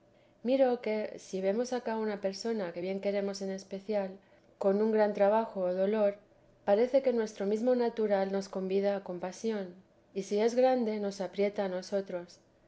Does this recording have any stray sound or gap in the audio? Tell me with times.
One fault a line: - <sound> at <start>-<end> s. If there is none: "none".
none